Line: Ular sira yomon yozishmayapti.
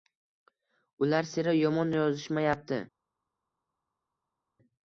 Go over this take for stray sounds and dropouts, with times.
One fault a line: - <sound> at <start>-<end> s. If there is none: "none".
none